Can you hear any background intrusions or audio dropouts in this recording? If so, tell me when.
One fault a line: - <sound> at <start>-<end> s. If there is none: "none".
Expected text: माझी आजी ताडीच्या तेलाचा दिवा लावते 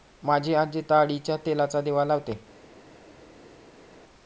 none